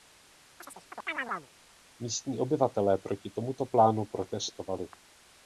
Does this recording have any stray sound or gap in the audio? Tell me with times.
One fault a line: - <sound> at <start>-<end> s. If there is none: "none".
- chirp at 0.6-1.5 s